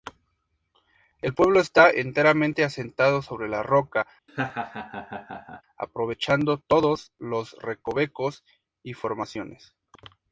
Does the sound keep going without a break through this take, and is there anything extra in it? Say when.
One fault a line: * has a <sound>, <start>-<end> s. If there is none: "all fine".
* has a laugh, 4.3-5.6 s